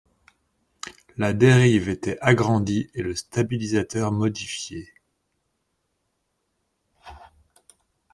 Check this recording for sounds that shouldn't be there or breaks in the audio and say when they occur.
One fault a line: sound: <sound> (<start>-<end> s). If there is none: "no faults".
no faults